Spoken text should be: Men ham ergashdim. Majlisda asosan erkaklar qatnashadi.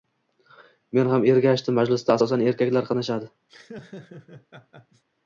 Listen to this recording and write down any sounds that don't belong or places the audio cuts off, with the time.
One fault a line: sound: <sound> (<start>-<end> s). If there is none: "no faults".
sound: laugh (3.5-5.0 s)